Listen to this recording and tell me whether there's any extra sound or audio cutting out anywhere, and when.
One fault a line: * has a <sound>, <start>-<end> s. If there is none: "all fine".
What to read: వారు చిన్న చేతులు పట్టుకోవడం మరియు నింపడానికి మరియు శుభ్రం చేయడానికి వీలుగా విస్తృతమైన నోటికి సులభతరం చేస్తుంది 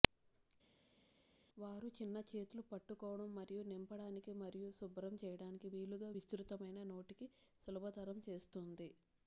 all fine